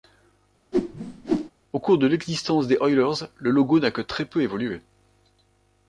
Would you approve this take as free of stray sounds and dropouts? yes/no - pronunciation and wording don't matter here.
no